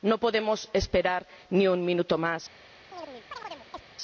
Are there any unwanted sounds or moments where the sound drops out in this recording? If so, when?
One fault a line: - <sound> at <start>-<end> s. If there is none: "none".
- chirp at 2.9-3.8 s